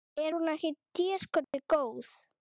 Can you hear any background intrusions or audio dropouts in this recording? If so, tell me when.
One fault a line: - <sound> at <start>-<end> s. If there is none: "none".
- dropout at 1.4-1.5 s